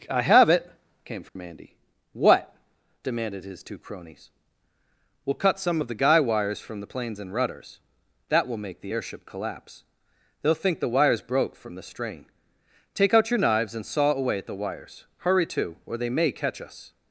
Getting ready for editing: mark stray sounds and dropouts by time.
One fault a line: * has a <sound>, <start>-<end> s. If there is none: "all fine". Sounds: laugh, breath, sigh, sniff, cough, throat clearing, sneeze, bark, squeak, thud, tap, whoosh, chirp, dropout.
* has a dropout, 1.3-1.4 s